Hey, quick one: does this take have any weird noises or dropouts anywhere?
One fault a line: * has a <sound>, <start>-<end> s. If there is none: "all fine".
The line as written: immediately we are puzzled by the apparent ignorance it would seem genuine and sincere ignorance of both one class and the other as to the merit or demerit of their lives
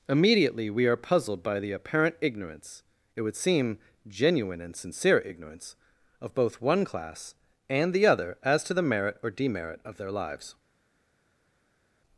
all fine